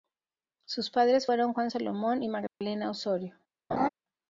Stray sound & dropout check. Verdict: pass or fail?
fail